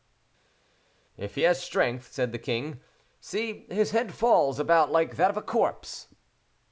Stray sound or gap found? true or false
false